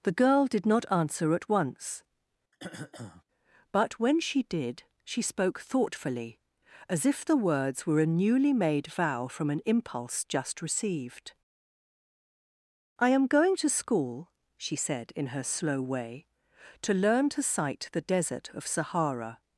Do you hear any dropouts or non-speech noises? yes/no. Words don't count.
yes